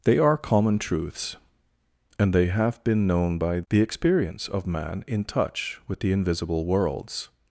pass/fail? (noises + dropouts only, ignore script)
pass